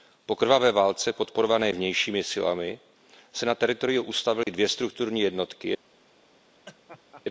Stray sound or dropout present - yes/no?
yes